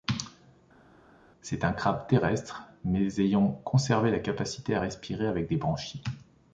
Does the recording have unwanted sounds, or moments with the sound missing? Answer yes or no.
no